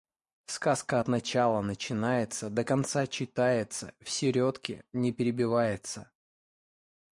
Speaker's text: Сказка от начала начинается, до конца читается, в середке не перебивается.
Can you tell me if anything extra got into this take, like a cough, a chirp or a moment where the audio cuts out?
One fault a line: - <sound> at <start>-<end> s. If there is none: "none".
none